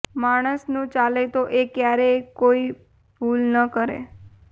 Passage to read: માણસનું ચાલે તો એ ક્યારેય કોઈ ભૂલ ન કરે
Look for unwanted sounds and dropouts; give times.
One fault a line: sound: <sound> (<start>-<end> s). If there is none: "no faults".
no faults